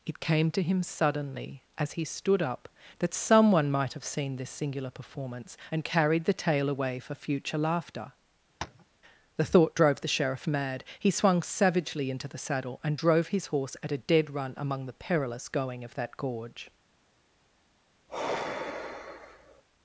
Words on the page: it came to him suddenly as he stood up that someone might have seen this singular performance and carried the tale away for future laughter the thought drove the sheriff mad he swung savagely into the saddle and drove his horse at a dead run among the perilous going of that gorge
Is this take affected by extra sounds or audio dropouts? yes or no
yes